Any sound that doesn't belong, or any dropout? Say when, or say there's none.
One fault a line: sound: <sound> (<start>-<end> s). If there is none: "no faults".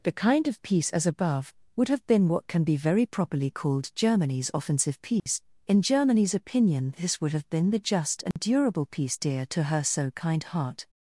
sound: dropout (5.2-5.3 s)
sound: dropout (8.3-8.4 s)